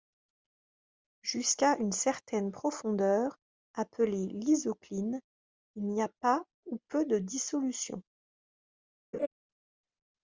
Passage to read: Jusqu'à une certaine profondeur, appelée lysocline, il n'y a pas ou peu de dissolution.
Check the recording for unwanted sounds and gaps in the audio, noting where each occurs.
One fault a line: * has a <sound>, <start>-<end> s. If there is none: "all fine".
* has a laugh, 9.1-9.3 s